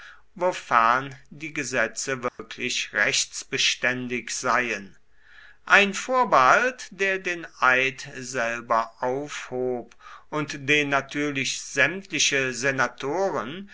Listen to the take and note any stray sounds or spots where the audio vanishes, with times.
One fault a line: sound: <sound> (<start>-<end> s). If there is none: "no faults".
sound: dropout (2.3-2.4 s)